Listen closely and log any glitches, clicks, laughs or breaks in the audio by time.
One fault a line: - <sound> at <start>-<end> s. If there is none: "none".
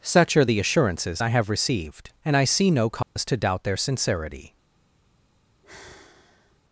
- dropout at 3.0-3.2 s
- sigh at 5.6-6.6 s